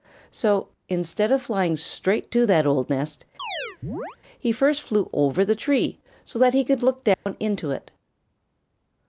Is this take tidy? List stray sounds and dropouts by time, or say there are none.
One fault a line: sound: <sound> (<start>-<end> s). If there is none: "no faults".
sound: chirp (3.4-4.2 s)
sound: dropout (7.1-7.3 s)